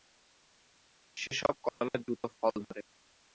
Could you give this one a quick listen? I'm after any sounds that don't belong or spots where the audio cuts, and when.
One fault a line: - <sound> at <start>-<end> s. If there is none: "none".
- dropout at 1.7-1.8 s